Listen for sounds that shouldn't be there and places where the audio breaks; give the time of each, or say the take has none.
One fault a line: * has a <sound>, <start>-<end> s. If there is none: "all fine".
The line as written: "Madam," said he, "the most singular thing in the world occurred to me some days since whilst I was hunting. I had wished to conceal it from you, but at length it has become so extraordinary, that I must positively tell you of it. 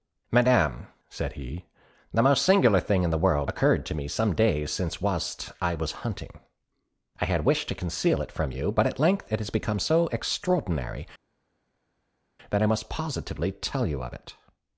all fine